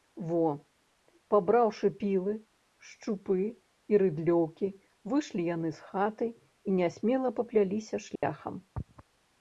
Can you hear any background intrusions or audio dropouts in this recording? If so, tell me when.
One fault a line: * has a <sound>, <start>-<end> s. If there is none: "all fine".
* has a dropout, 8.2-8.2 s